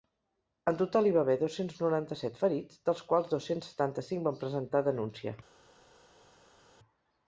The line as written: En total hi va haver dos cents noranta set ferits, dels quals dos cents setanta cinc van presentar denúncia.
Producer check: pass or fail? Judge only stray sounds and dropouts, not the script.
pass